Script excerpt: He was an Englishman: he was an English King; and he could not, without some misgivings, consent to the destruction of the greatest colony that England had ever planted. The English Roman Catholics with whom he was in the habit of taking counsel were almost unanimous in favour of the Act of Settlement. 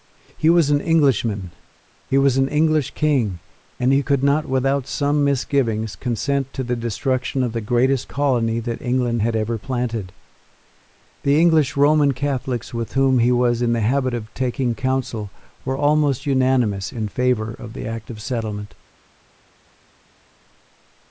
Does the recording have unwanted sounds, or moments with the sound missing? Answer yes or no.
no